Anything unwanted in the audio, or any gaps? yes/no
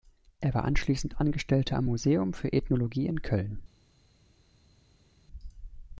no